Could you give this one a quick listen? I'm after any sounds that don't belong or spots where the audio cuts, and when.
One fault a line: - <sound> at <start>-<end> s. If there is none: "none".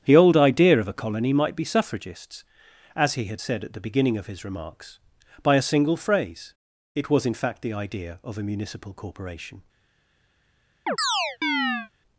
- chirp at 10.9-11.9 s